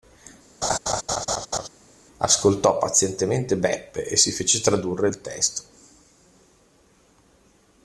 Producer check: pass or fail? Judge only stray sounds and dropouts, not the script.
fail